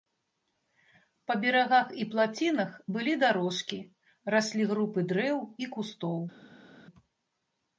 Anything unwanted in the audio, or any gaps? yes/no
no